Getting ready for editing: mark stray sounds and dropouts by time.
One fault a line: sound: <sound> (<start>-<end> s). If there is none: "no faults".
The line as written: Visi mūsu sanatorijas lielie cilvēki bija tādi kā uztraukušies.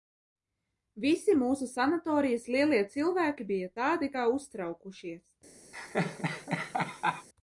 sound: laugh (5.7-7.3 s)